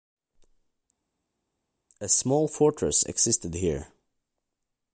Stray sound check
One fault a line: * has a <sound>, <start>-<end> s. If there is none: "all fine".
all fine